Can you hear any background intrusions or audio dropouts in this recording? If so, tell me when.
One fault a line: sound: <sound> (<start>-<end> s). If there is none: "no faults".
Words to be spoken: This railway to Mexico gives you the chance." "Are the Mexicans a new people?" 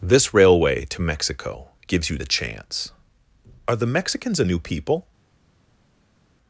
no faults